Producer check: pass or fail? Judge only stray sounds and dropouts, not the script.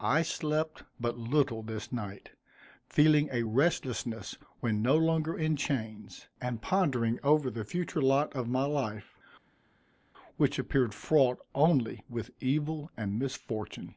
pass